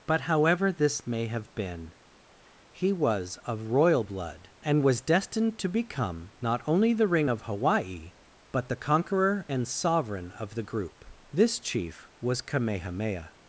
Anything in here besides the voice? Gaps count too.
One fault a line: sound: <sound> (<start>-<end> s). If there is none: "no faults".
no faults